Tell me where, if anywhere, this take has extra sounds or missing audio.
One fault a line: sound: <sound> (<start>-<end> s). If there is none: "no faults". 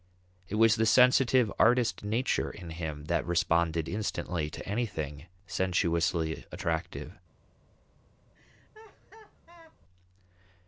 sound: laugh (8.3-9.8 s)